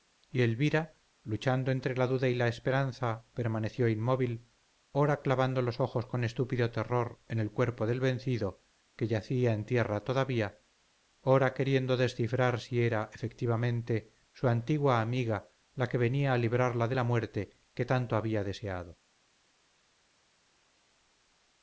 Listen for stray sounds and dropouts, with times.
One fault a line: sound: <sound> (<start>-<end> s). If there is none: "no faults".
no faults